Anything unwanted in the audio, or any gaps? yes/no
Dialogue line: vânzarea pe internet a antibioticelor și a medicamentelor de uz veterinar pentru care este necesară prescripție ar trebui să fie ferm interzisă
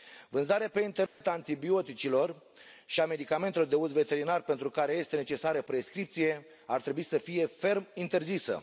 yes